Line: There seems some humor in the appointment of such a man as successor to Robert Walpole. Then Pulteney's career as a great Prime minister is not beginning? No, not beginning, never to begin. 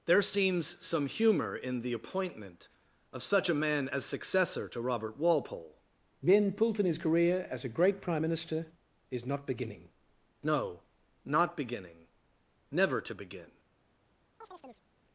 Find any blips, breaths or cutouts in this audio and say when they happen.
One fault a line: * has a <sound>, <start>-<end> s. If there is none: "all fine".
* has a chirp, 14.4-14.8 s